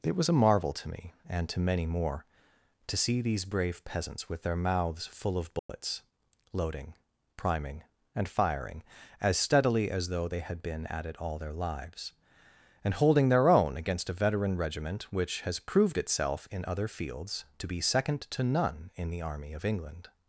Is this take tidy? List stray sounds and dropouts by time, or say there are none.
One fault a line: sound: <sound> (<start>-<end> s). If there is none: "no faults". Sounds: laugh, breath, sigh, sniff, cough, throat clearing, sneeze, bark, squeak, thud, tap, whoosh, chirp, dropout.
sound: dropout (5.6-5.7 s)